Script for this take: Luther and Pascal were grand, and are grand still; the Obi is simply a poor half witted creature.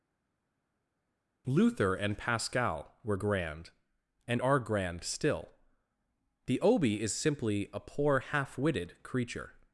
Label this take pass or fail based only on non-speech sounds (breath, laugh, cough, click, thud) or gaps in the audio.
pass